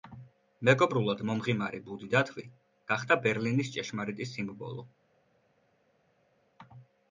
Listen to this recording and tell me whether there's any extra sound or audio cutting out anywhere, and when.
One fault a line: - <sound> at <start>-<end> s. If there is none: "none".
none